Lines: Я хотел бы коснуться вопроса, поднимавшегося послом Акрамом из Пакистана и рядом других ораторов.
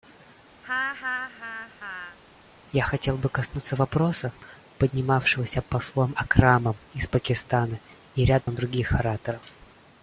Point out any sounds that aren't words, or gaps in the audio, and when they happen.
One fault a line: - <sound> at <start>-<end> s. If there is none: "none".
- laugh at 0.6-2.2 s
- dropout at 8.4-8.5 s